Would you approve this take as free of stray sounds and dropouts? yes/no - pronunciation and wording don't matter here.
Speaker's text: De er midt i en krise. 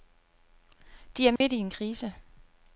no